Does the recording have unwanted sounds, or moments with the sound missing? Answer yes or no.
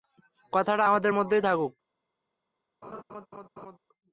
yes